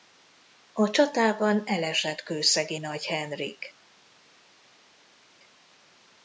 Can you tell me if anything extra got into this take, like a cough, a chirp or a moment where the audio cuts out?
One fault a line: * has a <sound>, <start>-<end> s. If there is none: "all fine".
all fine